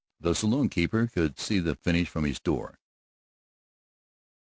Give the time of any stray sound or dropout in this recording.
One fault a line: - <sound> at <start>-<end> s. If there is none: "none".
none